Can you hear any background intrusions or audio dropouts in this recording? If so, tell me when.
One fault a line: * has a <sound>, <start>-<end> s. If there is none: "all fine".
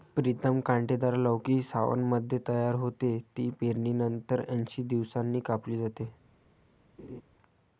* has a laugh, 7.0-7.2 s